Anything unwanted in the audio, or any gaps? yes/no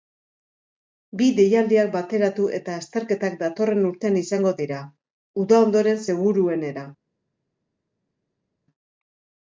no